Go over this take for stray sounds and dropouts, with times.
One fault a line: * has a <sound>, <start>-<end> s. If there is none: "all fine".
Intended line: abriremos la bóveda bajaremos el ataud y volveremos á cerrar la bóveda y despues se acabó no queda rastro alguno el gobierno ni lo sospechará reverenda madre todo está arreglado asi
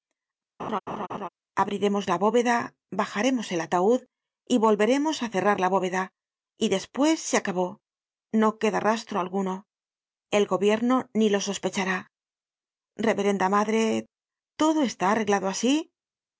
* has a laugh, 0.6-1.3 s